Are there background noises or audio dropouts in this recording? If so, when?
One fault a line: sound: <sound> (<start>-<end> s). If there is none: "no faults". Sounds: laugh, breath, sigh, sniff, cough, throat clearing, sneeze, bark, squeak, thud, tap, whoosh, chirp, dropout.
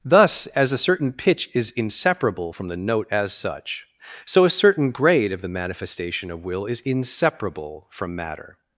no faults